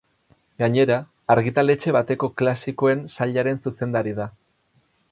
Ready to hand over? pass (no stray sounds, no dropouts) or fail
pass